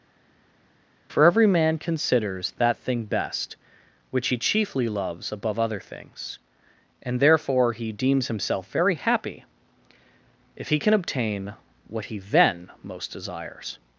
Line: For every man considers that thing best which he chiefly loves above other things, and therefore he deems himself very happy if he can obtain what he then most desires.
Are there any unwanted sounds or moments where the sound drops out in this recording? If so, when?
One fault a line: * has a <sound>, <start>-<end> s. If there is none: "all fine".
all fine